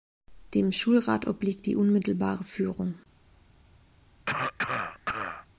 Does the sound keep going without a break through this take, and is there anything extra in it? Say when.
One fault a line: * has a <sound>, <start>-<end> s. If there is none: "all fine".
* has a cough, 4.3-5.5 s